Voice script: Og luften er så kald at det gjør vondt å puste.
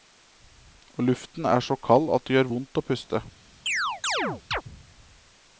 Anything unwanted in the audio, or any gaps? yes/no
yes